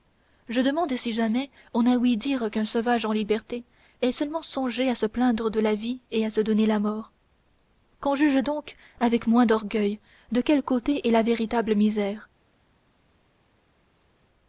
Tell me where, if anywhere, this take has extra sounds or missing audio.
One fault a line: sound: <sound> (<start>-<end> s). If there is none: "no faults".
no faults